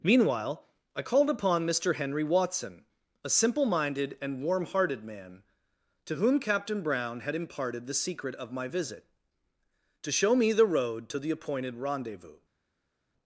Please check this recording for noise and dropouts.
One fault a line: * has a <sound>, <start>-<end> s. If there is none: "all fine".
all fine